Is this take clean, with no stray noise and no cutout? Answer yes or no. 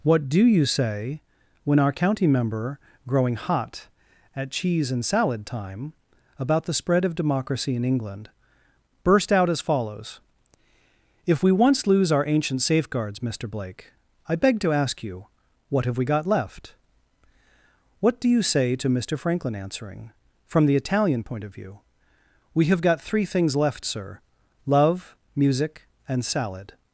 yes